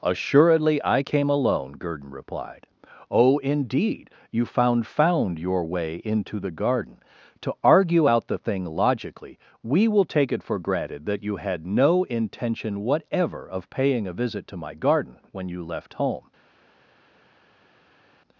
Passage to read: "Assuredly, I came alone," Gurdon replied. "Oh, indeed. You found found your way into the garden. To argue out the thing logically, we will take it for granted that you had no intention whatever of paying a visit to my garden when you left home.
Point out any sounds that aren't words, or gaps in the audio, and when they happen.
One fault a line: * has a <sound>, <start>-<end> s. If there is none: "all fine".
all fine